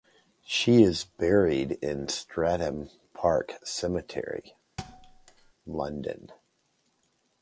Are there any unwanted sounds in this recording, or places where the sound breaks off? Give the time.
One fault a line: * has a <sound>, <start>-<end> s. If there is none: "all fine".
* has a thud, 4.8-5.5 s